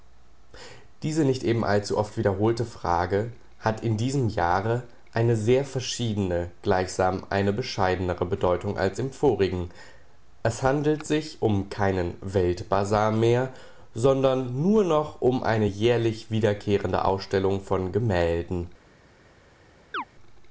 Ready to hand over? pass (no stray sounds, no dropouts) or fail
fail